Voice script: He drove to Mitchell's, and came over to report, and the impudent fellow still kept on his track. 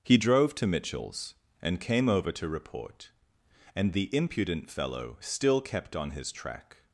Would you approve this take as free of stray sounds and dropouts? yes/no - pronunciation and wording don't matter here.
yes